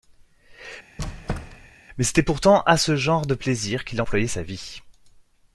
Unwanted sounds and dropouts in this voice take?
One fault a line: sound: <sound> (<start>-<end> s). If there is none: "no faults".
sound: squeak (1.0-1.8 s)